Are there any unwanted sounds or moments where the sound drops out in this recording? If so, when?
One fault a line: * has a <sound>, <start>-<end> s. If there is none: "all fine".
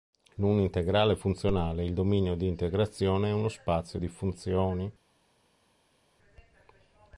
all fine